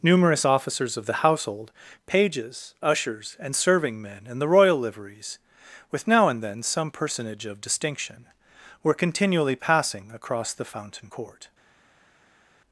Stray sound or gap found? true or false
false